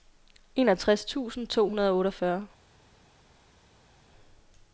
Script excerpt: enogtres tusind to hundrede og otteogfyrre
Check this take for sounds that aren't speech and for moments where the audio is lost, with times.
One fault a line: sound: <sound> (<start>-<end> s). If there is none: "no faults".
no faults